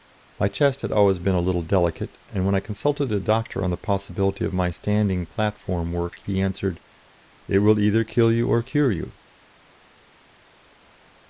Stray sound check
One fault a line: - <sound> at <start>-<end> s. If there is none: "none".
none